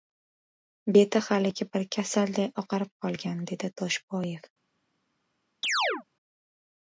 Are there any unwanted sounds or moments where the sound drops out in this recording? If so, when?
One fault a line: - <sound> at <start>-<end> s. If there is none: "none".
- chirp at 5.6-6.0 s